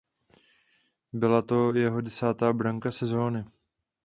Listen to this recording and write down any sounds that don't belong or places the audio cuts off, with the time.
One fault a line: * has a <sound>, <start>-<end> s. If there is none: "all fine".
all fine